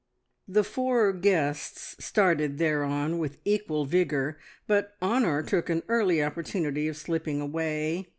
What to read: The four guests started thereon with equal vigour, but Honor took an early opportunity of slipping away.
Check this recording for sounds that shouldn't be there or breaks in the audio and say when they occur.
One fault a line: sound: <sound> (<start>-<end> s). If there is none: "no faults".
no faults